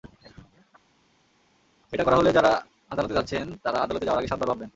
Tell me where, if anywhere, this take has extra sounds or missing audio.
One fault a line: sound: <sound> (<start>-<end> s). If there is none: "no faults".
no faults